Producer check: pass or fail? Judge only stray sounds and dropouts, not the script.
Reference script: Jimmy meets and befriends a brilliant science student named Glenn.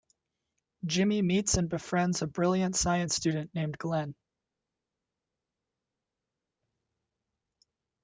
pass